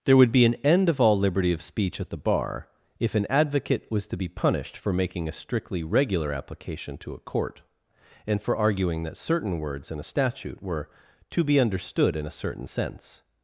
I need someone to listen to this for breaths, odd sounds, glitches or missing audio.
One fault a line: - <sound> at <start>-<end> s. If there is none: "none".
none